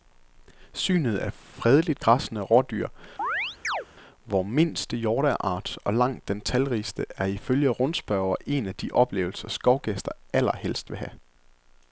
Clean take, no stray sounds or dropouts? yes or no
no